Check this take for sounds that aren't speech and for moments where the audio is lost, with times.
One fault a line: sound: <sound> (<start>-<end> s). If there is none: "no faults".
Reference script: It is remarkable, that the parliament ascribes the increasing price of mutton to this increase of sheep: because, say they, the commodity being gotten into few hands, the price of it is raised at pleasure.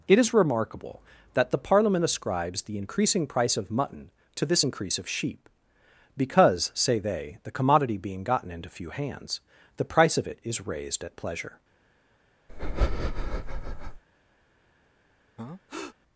sound: breath (12.5-14.0 s)
sound: breath (15.4-16.0 s)